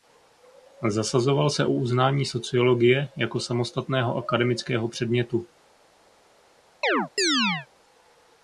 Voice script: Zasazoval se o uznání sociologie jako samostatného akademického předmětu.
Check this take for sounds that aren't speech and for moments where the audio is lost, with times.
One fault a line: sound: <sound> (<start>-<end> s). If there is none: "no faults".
sound: chirp (6.8-7.7 s)